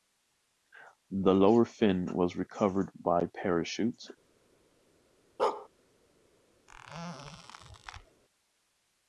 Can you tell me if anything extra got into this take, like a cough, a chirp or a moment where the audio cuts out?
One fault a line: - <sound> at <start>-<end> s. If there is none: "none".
- bark at 5.4-5.7 s
- squeak at 6.7-8.2 s